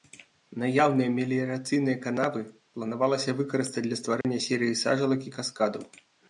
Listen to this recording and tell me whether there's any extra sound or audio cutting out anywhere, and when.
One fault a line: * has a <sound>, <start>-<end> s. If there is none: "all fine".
* has a dropout, 4.2-4.2 s